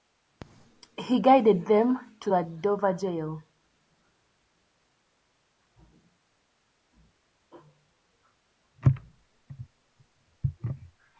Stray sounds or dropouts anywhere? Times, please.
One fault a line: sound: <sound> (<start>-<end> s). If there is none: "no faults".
no faults